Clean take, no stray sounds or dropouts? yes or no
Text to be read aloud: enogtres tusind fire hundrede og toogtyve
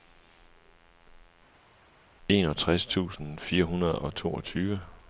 yes